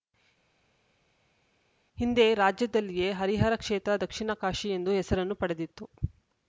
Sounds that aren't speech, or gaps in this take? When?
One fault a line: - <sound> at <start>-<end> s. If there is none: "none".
none